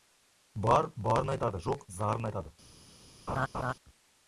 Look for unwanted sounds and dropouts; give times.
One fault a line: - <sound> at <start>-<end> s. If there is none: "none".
- laugh at 3.3-3.7 s